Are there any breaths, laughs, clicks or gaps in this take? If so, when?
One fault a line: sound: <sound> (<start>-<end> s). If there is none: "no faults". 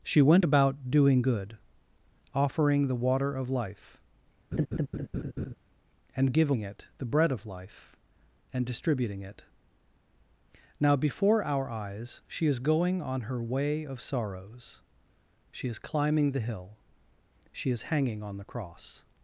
sound: laugh (4.5-5.6 s)